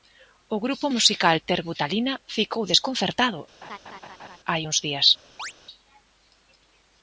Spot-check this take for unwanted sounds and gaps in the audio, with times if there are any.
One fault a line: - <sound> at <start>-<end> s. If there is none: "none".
- laugh at 3.6-4.4 s
- chirp at 5.4-5.5 s